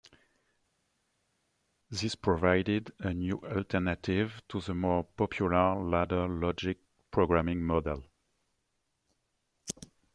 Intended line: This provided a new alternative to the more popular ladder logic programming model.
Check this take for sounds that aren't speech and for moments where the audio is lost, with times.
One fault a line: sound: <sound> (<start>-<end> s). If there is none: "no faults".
no faults